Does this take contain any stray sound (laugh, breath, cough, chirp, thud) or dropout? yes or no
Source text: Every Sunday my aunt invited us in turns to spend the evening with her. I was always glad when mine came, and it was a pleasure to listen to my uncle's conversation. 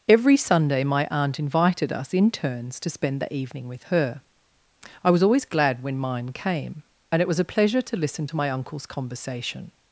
no